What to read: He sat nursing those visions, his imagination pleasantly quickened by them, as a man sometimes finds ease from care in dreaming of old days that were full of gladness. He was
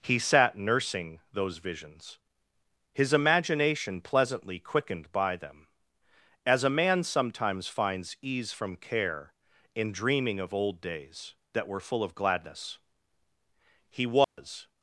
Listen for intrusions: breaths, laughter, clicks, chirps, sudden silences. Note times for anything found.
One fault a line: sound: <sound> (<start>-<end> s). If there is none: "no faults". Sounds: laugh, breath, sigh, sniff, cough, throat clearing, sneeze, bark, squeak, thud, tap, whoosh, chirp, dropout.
sound: dropout (14.2-14.4 s)